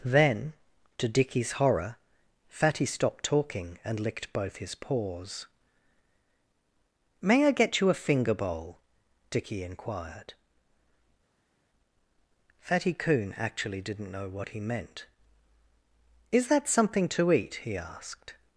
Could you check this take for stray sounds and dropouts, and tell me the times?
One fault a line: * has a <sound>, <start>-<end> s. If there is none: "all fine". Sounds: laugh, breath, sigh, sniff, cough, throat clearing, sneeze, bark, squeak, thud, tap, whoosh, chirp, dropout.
all fine